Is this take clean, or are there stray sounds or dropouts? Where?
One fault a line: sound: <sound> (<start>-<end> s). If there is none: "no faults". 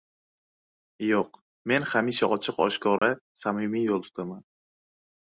sound: dropout (3.0-3.0 s)